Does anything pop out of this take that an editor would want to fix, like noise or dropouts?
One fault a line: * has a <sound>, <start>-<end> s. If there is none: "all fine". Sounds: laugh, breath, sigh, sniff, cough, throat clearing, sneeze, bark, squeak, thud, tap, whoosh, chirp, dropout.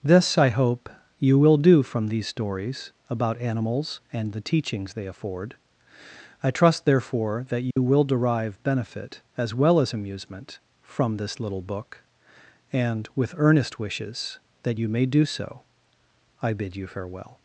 * has a dropout, 7.7-7.8 s